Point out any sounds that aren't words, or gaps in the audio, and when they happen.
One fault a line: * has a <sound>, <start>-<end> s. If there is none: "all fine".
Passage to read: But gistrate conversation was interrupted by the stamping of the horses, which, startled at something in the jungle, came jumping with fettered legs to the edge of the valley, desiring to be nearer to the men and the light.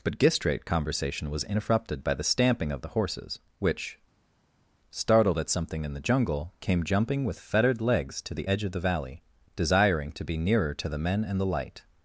all fine